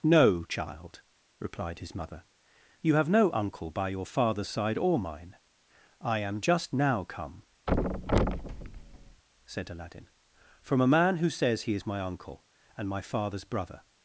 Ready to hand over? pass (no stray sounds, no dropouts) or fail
fail